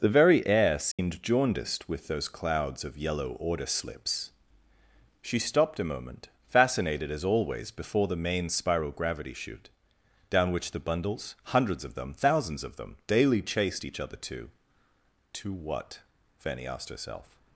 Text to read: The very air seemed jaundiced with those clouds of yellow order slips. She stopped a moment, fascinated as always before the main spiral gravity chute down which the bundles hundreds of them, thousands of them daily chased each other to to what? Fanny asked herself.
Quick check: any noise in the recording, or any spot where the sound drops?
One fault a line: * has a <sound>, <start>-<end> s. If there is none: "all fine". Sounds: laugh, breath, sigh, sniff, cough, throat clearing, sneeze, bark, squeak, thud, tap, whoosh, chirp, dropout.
* has a dropout, 0.9-1.0 s